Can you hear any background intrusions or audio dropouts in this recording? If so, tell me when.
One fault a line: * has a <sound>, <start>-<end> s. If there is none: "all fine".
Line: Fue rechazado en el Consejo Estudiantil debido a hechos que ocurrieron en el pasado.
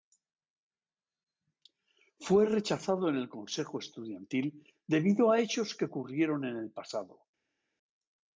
all fine